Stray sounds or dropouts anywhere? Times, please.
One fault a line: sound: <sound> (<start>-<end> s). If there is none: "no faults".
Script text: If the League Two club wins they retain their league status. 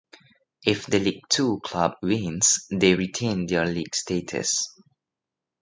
no faults